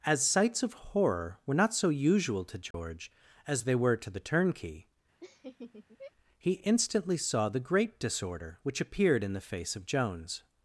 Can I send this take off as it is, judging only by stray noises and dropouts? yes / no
no